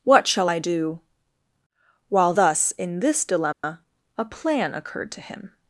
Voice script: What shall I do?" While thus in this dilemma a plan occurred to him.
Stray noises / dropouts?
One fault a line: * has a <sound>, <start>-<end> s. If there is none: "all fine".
* has a dropout, 3.5-3.6 s